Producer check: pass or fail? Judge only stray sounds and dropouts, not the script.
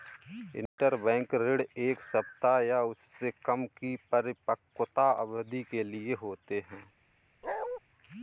fail